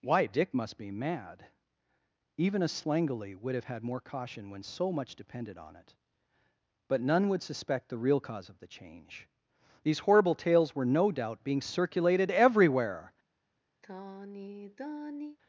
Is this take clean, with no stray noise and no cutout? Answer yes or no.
no